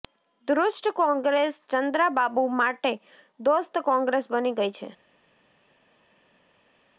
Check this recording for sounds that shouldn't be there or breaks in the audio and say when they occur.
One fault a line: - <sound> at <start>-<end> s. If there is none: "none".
none